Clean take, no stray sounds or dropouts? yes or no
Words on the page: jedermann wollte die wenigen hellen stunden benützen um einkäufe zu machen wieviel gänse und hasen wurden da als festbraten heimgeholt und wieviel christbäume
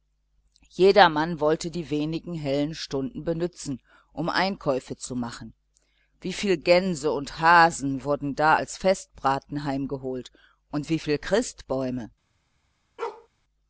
no